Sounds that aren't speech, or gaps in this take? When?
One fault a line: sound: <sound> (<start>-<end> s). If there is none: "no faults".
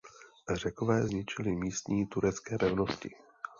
no faults